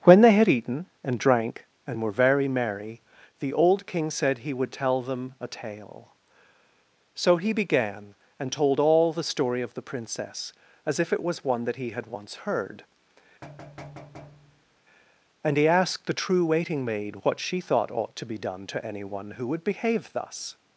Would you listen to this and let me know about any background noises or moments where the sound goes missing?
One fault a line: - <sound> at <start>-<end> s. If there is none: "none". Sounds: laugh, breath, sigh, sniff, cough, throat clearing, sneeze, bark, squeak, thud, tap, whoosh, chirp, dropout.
- thud at 13.4-14.8 s